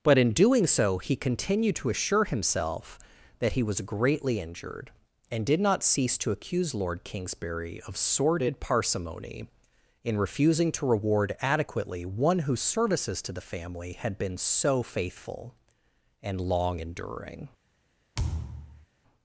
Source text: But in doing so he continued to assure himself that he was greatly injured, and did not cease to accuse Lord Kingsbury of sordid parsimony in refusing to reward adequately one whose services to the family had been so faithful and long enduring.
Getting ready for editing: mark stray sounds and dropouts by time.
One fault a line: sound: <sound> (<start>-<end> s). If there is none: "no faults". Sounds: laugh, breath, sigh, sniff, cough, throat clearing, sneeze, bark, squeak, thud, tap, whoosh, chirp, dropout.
sound: thud (18.2-18.9 s)